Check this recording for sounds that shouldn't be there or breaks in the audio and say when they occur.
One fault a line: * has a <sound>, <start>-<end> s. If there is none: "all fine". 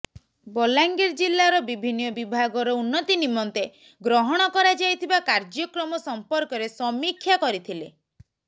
all fine